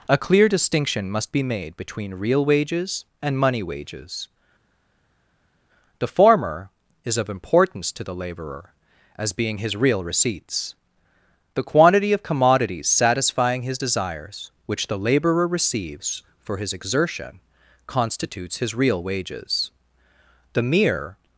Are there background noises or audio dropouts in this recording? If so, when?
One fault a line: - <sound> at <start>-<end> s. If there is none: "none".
none